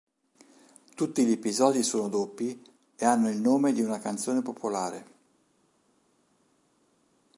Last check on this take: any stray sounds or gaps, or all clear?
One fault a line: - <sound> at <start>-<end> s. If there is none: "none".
none